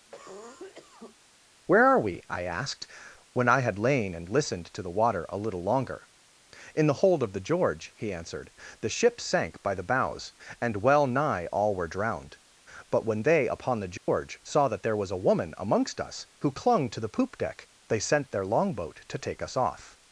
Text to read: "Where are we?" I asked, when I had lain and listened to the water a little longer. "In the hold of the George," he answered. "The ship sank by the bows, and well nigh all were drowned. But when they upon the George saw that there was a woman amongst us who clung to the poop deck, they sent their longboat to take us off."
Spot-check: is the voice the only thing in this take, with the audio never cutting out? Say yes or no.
no